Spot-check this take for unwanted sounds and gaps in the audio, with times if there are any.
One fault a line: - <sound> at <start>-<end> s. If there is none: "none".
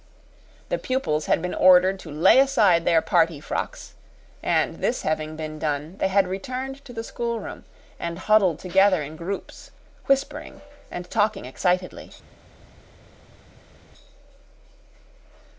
none